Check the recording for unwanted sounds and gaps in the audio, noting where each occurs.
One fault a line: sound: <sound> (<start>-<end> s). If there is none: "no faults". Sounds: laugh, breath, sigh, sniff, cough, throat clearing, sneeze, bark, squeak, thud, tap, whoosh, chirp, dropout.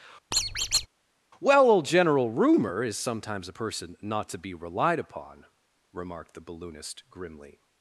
sound: squeak (0.3-0.9 s)